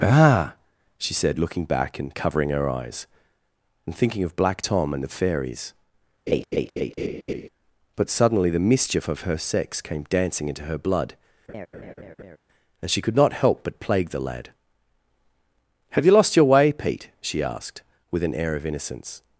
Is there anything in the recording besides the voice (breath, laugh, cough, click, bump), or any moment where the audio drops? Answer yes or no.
yes